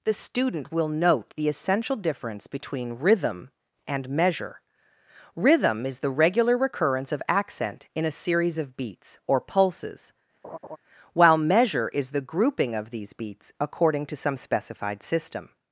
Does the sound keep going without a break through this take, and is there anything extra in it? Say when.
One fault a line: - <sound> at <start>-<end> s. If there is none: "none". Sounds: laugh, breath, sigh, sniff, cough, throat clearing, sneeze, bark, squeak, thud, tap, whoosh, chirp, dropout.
- laugh at 10.4-10.8 s